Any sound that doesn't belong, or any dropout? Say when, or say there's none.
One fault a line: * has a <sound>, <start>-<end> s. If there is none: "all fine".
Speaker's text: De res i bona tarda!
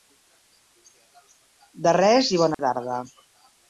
* has a dropout, 2.5-2.6 s